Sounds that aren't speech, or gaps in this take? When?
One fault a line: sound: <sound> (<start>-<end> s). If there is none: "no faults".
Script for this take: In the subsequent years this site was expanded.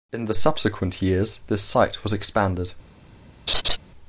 sound: laugh (3.5-3.8 s)